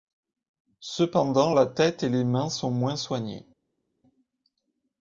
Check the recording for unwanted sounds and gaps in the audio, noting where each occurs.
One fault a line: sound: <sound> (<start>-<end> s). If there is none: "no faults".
no faults